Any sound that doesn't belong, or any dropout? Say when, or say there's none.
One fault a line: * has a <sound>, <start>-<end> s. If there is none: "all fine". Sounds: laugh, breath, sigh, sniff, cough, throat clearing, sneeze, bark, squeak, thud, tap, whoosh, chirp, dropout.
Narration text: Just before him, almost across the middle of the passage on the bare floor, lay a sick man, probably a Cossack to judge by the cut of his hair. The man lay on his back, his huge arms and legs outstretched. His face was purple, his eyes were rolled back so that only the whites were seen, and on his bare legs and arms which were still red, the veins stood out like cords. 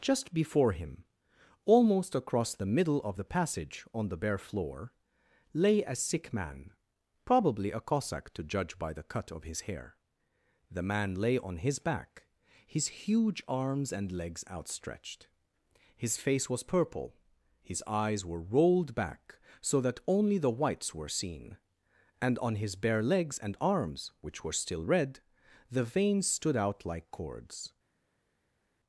all fine